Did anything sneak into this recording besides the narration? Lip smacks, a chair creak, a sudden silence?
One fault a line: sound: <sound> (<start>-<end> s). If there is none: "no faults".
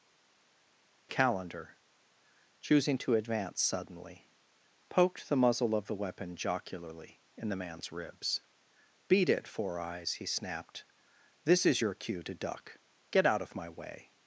no faults